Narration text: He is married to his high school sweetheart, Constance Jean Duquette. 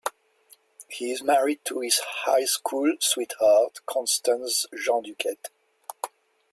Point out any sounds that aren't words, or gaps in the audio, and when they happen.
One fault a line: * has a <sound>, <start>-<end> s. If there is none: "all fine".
all fine